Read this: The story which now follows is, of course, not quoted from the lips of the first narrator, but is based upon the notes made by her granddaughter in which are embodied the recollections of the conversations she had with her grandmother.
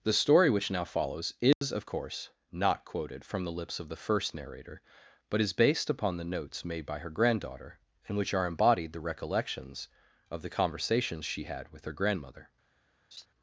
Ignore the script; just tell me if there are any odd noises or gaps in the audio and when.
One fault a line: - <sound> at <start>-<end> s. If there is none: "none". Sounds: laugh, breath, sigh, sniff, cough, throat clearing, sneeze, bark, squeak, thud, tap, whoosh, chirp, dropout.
- dropout at 1.5-1.6 s
- laugh at 13.1-13.3 s